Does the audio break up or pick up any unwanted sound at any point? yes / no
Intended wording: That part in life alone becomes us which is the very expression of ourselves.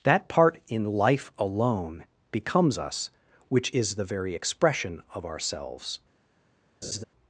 yes